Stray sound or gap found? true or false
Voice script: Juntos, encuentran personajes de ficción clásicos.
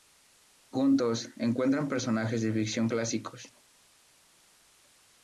false